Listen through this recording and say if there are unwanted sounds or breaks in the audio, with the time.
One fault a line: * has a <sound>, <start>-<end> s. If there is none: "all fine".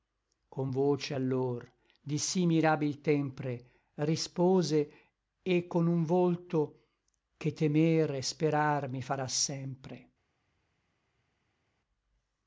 all fine